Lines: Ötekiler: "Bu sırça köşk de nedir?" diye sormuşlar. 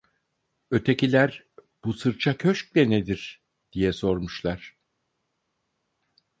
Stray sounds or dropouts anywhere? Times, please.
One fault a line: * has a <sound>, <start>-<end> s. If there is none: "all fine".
all fine